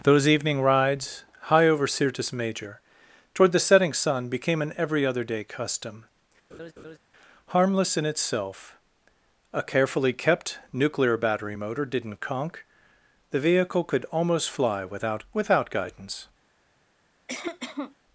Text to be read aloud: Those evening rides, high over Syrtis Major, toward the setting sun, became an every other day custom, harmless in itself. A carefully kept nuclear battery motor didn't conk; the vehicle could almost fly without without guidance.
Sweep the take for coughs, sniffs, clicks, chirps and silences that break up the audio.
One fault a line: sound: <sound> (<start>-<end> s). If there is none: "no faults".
sound: laugh (6.5-7.0 s)
sound: cough (17.3-18.0 s)